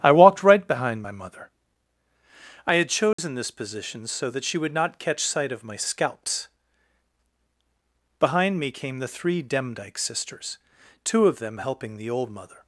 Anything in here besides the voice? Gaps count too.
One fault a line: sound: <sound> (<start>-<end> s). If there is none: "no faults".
sound: dropout (3.1-3.2 s)